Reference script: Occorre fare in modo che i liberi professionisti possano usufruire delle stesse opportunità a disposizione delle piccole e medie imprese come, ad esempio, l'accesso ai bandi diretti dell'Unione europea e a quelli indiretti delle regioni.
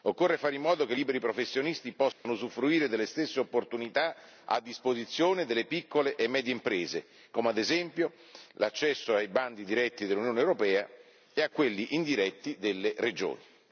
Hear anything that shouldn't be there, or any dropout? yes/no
yes